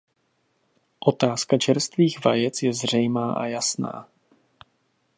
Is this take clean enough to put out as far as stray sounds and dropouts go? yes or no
yes